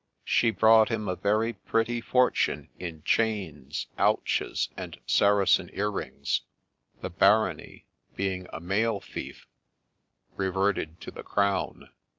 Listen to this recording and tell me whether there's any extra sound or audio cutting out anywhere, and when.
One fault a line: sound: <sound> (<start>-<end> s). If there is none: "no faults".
no faults